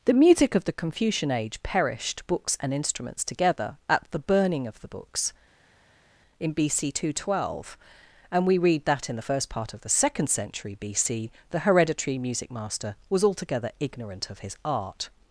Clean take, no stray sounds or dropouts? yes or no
yes